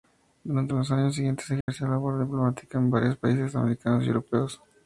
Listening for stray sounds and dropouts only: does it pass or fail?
fail